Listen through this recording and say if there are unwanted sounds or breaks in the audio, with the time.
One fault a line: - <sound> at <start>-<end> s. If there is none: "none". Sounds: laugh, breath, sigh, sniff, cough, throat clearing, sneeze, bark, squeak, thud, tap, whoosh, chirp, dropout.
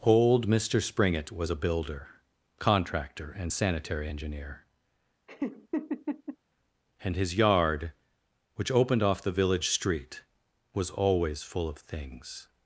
- laugh at 5.3-6.4 s